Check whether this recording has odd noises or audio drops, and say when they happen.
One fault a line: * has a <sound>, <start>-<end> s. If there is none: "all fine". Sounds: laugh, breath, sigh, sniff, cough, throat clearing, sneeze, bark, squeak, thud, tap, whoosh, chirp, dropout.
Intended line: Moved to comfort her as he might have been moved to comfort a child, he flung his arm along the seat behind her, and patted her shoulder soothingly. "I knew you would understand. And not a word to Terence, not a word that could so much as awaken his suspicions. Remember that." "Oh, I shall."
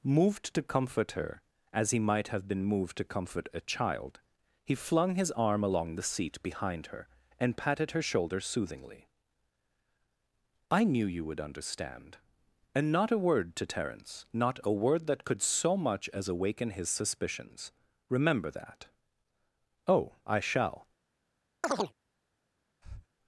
* has a chirp, 21.6-21.9 s
* has a breath, 22.8-23.1 s